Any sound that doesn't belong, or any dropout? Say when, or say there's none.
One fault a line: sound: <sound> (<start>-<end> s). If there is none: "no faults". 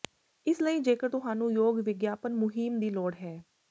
no faults